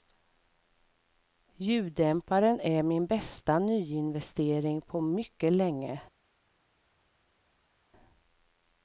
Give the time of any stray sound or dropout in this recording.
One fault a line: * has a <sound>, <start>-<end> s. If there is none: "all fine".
all fine